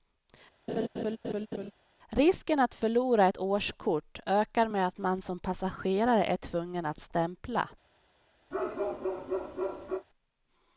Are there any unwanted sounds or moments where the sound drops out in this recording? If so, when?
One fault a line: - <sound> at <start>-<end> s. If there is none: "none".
- laugh at 0.7-1.7 s
- bark at 8.5-10.1 s